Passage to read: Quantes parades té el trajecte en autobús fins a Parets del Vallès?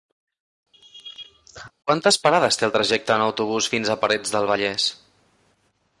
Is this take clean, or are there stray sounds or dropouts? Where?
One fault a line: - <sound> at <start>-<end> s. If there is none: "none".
- laugh at 0.7-1.7 s